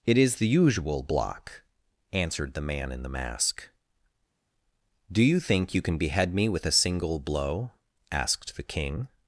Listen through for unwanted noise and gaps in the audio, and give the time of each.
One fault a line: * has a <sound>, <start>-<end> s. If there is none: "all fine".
all fine